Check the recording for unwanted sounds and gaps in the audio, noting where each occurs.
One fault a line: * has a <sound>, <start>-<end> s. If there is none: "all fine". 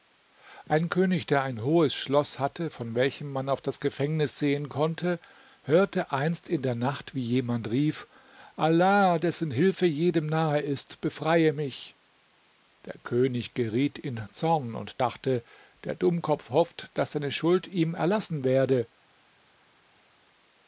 all fine